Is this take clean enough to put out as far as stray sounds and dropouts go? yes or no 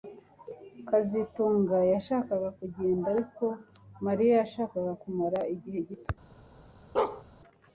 no